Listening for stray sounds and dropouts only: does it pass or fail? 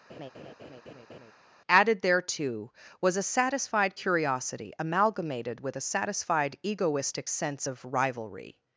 fail